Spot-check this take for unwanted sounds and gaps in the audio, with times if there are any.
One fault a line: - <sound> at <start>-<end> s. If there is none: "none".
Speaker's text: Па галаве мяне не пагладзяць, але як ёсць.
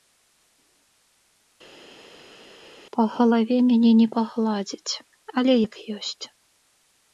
none